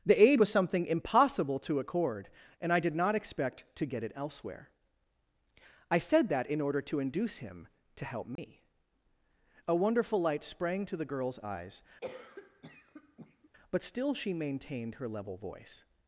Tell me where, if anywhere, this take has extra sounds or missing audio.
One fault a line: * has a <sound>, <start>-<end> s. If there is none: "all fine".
* has a dropout, 8.4-8.4 s
* has a cough, 12.0-13.5 s